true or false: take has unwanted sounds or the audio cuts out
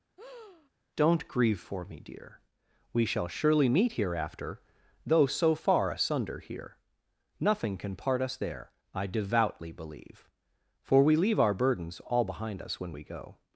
true